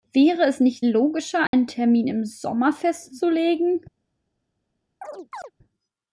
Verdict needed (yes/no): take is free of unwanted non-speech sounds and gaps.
no